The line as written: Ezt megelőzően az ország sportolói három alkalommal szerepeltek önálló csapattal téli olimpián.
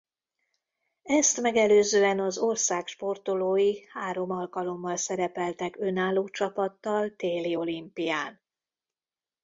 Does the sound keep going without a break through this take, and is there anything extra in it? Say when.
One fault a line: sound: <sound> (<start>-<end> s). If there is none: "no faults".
no faults